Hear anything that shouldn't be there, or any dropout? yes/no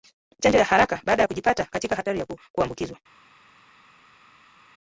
no